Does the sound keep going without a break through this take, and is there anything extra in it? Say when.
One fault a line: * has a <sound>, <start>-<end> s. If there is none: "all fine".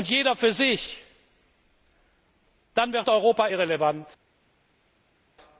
all fine